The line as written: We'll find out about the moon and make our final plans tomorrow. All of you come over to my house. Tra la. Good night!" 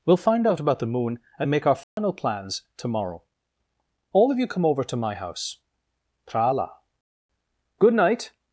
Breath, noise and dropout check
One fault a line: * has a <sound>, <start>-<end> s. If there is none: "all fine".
* has a dropout, 1.8-2.0 s